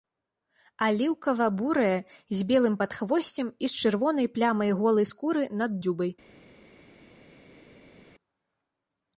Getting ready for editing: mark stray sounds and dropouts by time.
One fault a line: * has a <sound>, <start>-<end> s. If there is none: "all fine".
all fine